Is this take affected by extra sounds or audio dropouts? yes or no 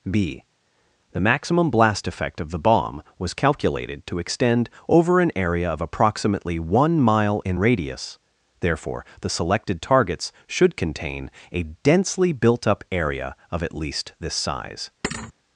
yes